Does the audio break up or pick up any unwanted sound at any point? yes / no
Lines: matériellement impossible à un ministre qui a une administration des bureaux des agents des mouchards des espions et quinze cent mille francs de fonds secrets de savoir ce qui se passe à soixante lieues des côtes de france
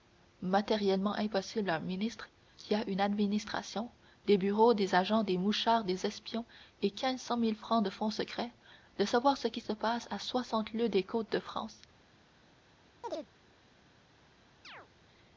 yes